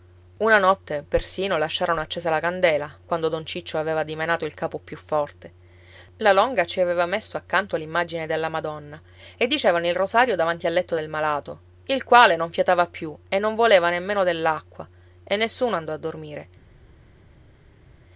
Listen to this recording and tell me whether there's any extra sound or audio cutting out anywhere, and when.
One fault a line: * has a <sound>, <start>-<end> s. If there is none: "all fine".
all fine